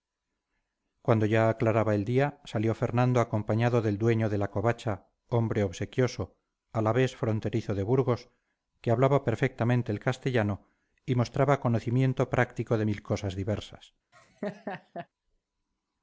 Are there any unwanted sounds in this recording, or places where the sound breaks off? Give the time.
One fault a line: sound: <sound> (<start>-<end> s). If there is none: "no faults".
sound: laugh (14.1-15.1 s)